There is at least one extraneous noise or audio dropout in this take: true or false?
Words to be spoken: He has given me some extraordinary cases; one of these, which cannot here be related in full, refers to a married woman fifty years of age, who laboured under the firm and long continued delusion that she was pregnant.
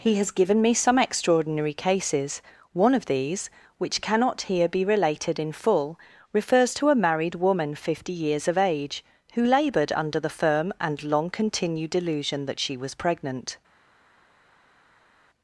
false